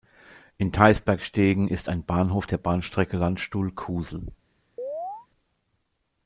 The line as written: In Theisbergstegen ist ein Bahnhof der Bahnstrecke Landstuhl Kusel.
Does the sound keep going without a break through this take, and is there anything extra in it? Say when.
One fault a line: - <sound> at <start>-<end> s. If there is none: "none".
- chirp at 4.8-5.3 s